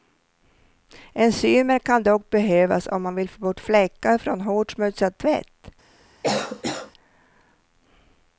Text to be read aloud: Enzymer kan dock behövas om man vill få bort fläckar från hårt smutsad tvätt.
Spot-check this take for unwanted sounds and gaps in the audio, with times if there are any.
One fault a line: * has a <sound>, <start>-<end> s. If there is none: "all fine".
* has a cough, 6.2-6.9 s